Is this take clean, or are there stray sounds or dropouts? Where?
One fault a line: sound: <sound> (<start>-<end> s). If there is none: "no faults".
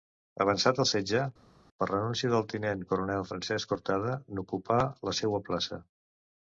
no faults